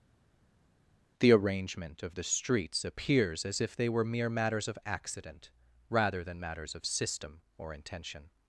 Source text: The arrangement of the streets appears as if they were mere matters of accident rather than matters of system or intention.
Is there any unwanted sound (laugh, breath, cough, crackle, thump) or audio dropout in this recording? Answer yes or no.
no